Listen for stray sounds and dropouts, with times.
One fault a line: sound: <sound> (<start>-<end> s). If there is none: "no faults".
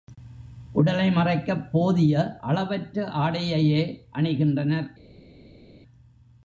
no faults